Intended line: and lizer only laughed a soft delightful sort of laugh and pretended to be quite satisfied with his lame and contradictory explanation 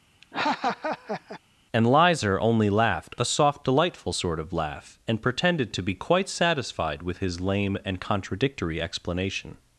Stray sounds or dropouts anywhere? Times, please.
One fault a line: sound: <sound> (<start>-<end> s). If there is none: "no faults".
sound: laugh (0.2-1.4 s)